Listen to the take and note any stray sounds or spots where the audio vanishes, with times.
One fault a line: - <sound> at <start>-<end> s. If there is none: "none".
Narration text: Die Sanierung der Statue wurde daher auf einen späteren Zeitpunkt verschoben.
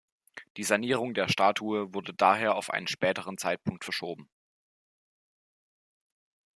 none